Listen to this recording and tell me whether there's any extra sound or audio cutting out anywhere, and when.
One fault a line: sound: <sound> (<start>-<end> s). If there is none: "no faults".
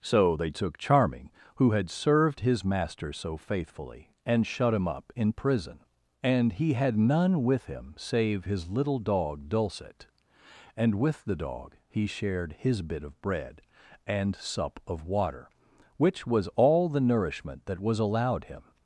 no faults